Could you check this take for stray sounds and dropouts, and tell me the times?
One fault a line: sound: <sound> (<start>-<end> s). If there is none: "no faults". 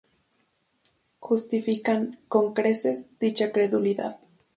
no faults